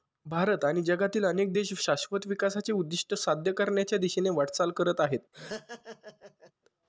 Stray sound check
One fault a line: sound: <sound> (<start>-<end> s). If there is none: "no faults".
sound: laugh (5.3-6.5 s)